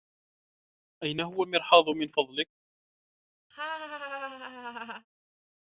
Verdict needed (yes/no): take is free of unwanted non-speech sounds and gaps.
no